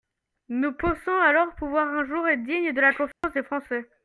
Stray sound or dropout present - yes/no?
yes